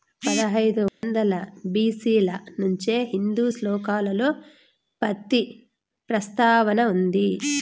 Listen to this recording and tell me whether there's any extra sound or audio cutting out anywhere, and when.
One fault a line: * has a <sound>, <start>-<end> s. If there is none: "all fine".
* has a dropout, 0.9-1.0 s